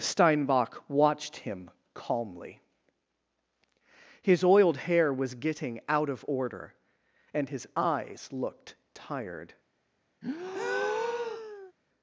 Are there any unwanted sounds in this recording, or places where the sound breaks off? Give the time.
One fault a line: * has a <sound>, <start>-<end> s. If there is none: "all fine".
* has a breath, 10.2-11.7 s